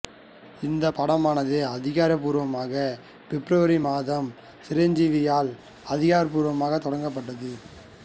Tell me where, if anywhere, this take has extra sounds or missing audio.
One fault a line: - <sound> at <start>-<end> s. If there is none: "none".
none